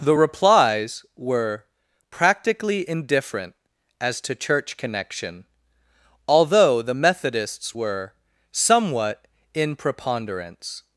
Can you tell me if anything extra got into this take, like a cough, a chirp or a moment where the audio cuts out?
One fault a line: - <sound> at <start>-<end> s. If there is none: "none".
none